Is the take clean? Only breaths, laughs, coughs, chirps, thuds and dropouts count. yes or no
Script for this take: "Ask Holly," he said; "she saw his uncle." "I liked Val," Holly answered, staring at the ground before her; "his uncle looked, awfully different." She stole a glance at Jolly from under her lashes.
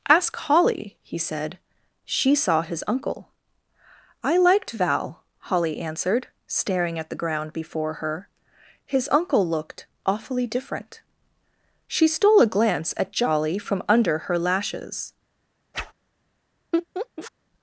no